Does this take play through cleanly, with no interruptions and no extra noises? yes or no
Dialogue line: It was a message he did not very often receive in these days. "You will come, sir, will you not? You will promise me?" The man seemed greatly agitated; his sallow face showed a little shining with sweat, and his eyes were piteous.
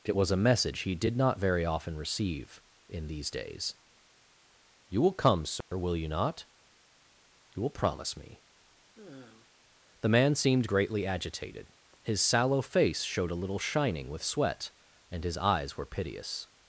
no